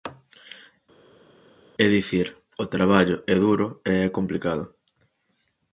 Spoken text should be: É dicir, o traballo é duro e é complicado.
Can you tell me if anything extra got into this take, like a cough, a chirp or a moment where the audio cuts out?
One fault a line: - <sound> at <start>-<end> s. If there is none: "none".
none